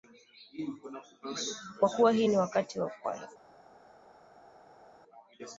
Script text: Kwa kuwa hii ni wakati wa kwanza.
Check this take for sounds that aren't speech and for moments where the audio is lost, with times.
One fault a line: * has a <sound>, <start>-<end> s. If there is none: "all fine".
all fine